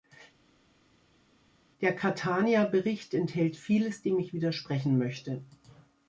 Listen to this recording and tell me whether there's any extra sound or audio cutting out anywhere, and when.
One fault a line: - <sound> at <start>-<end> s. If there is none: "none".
none